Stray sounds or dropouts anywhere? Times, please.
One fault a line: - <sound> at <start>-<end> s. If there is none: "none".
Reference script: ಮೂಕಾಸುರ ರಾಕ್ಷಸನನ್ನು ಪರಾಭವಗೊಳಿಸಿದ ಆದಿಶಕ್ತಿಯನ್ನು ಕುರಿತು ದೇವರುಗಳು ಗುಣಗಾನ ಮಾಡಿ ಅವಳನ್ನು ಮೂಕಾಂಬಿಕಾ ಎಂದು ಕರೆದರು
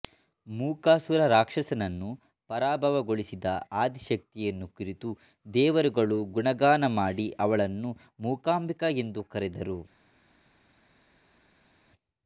none